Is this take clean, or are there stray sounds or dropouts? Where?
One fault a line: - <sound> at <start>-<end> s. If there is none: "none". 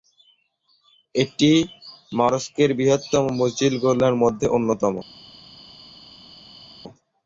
none